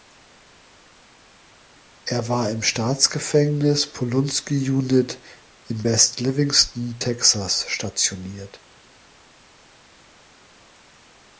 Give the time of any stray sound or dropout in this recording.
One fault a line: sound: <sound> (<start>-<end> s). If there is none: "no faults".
no faults